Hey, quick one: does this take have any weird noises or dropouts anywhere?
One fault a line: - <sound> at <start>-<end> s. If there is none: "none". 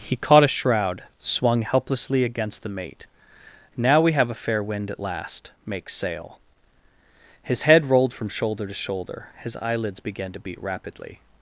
none